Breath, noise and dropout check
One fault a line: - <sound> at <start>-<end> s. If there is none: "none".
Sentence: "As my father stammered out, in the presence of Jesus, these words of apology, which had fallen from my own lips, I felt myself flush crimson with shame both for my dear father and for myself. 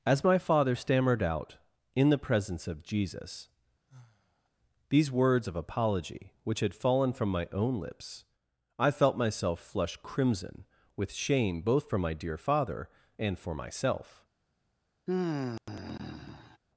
- sigh at 3.9-4.5 s
- sigh at 15.1-16.6 s